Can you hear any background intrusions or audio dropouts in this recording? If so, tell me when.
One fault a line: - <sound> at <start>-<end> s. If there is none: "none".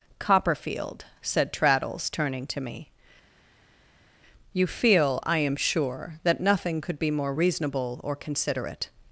none